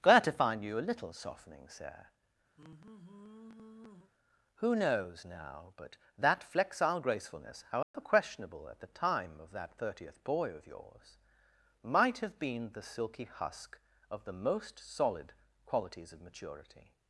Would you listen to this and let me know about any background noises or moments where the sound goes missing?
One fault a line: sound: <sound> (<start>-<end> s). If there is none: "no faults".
sound: sigh (2.6-4.1 s)
sound: dropout (7.8-7.9 s)